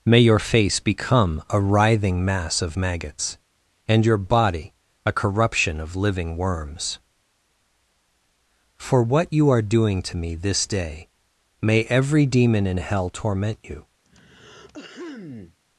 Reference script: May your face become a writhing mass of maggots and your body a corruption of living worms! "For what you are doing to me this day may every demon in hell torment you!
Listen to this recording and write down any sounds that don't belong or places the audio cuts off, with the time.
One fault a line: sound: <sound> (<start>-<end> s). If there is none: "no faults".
sound: throat clearing (14.1-15.6 s)